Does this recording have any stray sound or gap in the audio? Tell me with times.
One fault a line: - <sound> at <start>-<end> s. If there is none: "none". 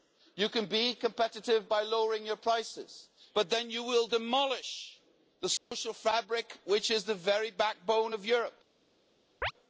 - dropout at 5.6-5.7 s
- chirp at 9.4-9.5 s